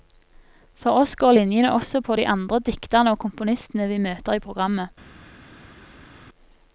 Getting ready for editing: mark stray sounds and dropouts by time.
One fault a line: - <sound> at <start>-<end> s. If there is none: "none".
none